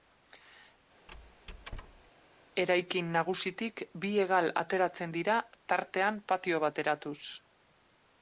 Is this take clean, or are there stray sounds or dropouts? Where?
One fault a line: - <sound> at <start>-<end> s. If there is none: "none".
- squeak at 1.1-2.1 s